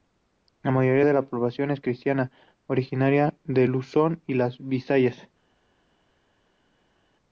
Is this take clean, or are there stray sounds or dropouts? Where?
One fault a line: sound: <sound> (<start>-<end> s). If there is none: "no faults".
no faults